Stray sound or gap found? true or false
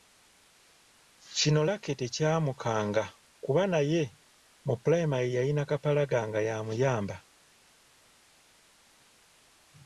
false